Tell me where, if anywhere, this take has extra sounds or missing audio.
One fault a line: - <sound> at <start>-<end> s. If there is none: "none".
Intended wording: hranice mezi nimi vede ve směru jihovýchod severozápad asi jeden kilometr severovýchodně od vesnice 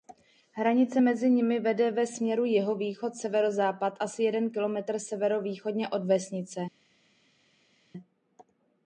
none